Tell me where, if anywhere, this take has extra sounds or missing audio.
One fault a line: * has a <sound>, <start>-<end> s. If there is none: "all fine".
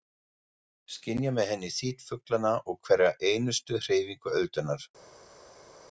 all fine